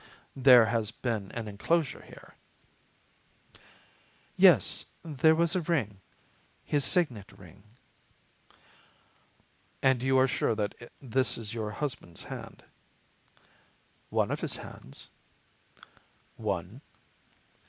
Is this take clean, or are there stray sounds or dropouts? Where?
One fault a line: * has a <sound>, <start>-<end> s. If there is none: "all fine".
all fine